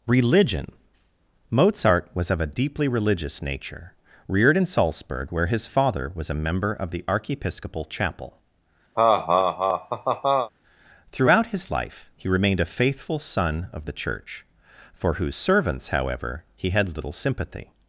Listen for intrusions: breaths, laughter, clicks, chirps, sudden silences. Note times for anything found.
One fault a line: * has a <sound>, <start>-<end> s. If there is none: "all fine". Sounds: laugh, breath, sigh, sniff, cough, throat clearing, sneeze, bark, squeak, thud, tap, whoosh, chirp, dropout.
* has a laugh, 9.0-10.5 s